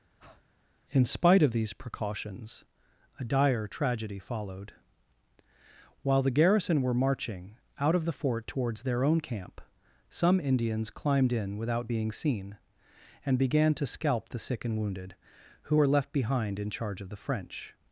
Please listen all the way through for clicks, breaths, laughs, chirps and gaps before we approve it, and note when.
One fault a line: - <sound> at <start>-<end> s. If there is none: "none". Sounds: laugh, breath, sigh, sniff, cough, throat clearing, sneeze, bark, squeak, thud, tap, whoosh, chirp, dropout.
- breath at 0.2-0.4 s